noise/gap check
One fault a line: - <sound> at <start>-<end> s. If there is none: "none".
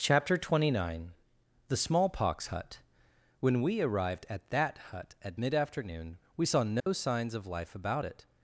- dropout at 6.8-6.9 s